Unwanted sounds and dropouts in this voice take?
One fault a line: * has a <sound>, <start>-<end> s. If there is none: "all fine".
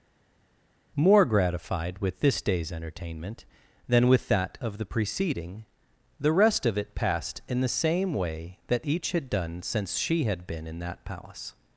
all fine